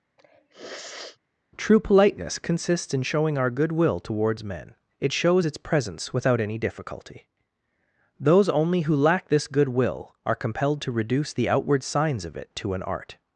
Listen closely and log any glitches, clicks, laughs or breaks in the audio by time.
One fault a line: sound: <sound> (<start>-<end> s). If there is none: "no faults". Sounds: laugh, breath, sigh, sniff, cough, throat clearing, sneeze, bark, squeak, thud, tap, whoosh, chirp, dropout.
sound: sniff (0.2-1.2 s)